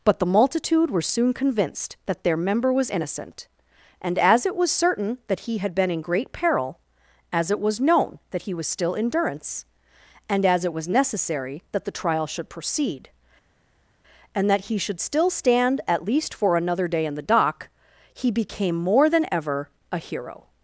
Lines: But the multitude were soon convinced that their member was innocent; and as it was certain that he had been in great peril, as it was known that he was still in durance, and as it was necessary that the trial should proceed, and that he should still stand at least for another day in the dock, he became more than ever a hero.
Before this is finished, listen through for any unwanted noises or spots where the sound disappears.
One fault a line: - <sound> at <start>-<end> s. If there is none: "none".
none